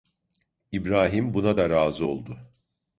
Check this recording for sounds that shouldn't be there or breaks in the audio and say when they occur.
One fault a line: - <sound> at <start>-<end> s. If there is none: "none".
none